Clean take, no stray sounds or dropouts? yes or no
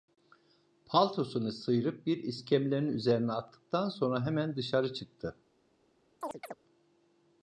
no